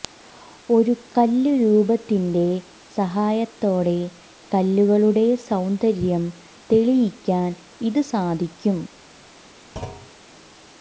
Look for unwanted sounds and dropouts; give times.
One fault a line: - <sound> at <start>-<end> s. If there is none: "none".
- thud at 9.8-10.1 s